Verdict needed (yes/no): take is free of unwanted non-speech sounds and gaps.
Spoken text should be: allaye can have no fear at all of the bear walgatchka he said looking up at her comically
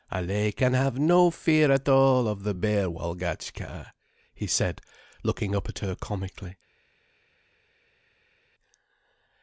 yes